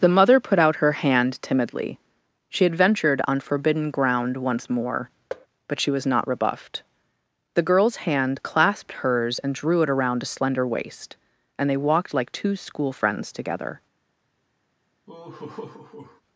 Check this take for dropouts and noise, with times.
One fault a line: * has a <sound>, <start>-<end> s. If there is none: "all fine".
* has a thud, 5.3-5.5 s
* has a laugh, 15.1-16.2 s